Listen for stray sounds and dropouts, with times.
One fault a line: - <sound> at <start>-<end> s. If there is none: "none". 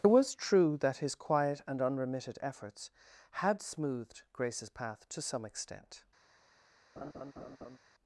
- laugh at 7.0-7.8 s